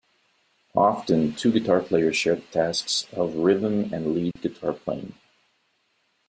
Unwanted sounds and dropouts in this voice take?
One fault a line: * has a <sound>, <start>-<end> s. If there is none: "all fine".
* has a dropout, 4.3-4.4 s